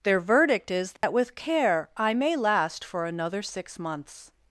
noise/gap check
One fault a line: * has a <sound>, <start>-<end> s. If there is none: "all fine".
* has a dropout, 1.0-1.0 s